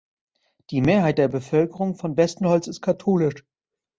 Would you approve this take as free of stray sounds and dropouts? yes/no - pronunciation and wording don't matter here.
yes